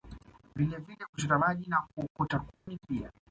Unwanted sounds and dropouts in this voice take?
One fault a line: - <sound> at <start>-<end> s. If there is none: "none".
- dropout at 2.5-2.7 s